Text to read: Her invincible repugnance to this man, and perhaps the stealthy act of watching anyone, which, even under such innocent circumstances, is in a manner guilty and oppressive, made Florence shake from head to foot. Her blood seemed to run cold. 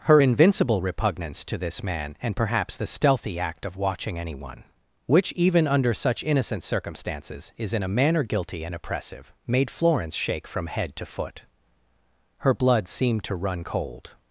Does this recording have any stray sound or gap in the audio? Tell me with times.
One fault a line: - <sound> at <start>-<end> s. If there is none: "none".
none